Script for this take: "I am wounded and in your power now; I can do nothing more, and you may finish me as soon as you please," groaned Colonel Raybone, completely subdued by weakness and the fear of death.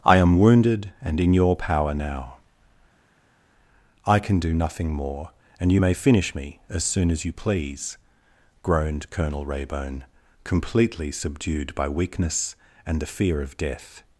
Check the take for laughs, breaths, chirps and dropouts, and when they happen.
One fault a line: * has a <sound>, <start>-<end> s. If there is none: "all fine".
all fine